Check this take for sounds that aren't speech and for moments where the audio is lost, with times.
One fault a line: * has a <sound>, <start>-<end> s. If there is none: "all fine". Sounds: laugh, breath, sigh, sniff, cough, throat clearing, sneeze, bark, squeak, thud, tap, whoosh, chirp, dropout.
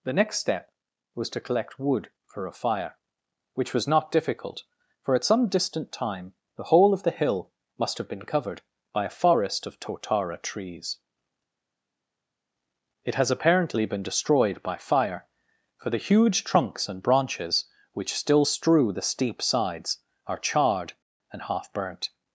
all fine